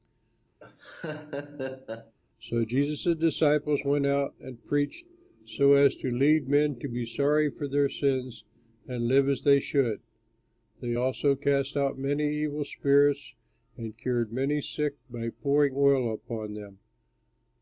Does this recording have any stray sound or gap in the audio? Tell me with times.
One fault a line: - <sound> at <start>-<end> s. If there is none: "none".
- laugh at 0.6-2.1 s